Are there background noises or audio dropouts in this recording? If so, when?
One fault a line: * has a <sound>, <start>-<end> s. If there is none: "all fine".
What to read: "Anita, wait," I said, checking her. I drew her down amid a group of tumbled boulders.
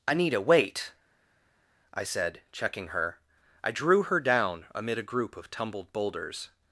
all fine